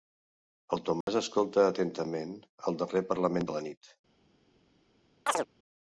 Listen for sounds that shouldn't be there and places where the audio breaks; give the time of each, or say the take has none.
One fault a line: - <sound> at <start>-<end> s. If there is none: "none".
- dropout at 1.0-1.1 s
- chirp at 5.3-5.5 s